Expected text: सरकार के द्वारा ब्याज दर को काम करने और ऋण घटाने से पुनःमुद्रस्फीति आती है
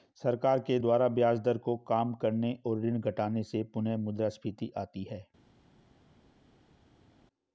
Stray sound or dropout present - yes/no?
no